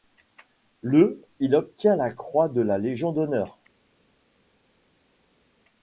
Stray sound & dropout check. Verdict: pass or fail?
pass